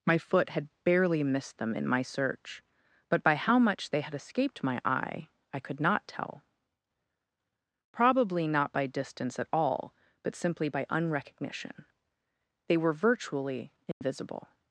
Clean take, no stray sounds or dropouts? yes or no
no